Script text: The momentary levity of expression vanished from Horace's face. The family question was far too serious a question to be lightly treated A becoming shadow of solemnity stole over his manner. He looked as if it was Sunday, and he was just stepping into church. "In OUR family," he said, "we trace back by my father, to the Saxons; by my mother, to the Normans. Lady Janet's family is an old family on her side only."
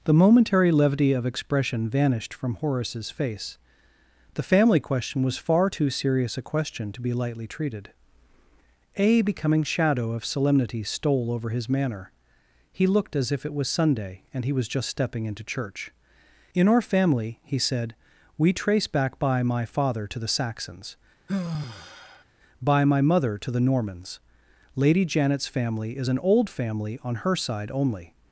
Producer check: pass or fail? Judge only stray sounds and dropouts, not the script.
fail